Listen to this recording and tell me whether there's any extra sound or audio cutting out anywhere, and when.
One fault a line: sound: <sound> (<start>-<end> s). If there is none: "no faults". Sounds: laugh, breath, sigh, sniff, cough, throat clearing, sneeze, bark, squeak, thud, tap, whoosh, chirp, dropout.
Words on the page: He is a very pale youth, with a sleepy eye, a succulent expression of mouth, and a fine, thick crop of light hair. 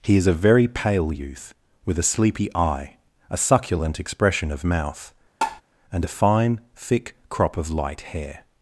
sound: tap (5.4-5.6 s)